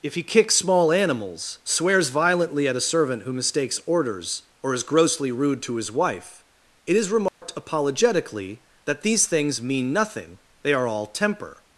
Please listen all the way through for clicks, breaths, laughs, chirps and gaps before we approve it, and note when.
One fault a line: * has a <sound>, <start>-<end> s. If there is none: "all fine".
* has a dropout, 7.3-7.4 s